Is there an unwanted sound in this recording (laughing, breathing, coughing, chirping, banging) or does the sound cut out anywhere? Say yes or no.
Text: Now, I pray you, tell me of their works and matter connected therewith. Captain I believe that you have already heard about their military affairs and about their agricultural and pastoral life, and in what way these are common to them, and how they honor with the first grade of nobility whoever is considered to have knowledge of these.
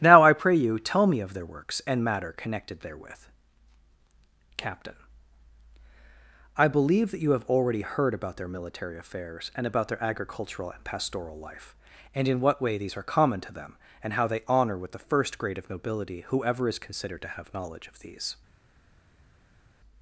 no